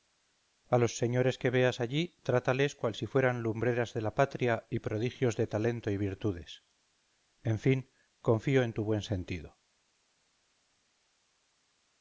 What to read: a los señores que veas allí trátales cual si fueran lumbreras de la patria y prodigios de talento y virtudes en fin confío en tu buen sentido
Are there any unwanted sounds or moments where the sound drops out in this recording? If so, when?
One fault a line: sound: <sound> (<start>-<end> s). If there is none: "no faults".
no faults